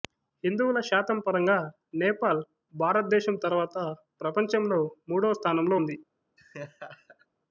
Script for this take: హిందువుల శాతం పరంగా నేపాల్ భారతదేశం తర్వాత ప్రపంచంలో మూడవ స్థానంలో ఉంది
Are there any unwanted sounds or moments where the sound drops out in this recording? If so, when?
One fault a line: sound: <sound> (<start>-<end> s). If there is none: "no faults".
sound: laugh (6.4-7.3 s)